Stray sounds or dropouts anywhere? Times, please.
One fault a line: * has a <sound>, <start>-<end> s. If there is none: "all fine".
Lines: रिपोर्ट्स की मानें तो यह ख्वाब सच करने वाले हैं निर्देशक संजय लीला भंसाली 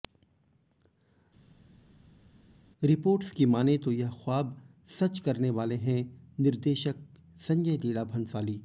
all fine